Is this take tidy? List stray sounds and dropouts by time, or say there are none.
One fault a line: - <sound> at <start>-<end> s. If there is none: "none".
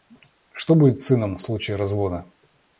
none